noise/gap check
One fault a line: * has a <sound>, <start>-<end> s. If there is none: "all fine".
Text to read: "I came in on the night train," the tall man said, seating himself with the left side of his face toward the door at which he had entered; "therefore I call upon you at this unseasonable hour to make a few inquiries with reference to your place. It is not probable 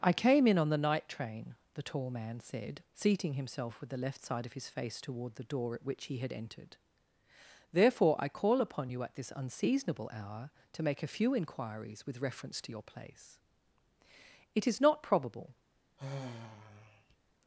* has a sigh, 16.0-17.2 s